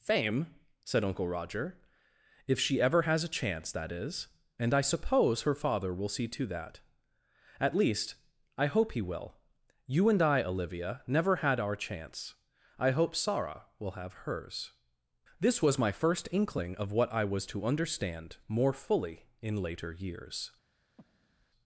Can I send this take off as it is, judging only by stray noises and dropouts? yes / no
no